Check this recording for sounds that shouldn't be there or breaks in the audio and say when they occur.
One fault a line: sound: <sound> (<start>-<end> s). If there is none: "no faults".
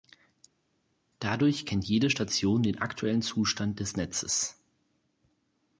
no faults